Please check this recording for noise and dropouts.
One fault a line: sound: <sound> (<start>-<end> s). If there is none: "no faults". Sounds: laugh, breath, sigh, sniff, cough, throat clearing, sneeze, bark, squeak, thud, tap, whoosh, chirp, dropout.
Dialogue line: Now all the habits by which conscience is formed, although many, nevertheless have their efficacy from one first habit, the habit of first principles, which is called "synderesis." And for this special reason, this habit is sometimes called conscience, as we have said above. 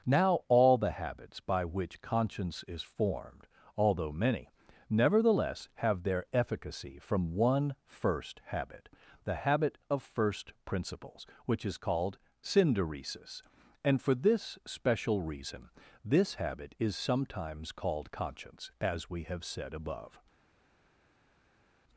no faults